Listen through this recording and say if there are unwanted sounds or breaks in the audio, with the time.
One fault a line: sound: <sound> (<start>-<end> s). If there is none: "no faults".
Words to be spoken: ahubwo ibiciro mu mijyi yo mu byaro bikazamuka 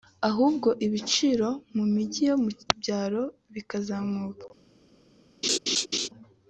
sound: laugh (5.4-6.1 s)